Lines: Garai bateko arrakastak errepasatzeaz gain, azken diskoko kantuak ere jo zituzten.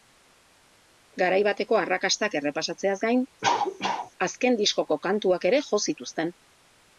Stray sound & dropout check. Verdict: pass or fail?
fail